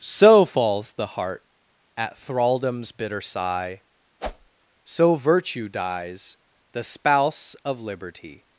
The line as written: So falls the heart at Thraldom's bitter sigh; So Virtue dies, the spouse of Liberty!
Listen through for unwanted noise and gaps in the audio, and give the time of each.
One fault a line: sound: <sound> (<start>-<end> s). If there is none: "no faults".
sound: whoosh (4.2-4.5 s)